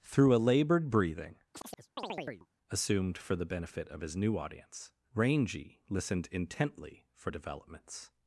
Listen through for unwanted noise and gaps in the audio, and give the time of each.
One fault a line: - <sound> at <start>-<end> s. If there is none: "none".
- chirp at 1.5-2.5 s